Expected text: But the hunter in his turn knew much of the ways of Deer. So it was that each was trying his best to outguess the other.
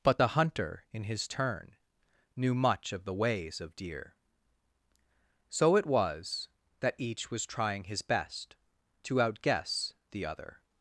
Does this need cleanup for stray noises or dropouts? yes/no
no